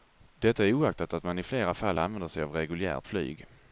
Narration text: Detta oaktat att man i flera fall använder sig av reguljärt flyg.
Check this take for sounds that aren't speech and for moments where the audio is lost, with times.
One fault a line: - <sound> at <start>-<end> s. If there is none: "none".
none